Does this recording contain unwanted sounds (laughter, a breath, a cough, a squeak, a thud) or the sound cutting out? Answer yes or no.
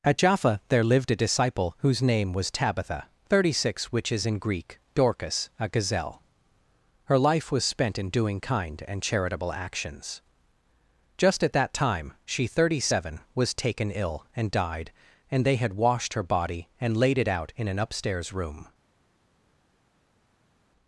no